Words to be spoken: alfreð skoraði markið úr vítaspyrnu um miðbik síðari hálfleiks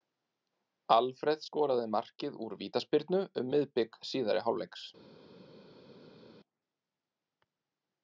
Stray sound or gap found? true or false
false